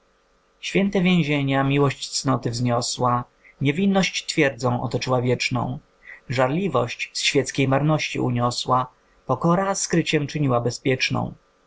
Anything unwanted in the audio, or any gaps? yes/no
no